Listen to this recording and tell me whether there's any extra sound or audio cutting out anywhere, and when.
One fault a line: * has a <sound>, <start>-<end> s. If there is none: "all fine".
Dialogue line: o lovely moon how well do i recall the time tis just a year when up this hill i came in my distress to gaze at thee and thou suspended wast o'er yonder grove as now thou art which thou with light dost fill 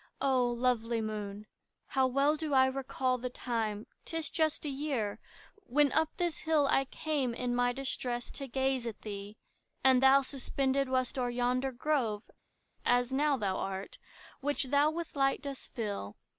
all fine